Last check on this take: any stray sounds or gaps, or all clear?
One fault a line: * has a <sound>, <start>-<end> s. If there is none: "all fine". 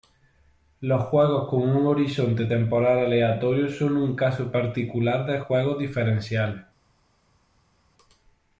all fine